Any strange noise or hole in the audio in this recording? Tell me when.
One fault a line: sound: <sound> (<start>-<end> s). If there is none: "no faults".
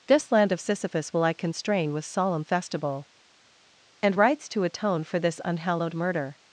no faults